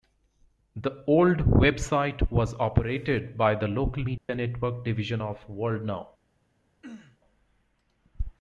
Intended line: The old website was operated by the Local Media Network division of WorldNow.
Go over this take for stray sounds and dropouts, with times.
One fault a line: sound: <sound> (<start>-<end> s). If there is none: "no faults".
sound: dropout (4.2-4.3 s)
sound: throat clearing (6.8-7.2 s)